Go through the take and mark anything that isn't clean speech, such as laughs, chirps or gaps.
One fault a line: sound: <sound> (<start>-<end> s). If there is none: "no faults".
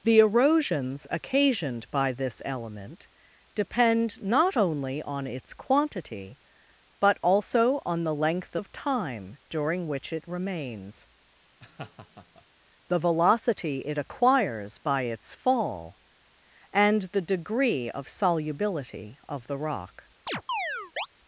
sound: laugh (11.6-12.4 s)
sound: chirp (20.3-21.1 s)